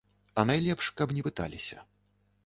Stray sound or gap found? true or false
false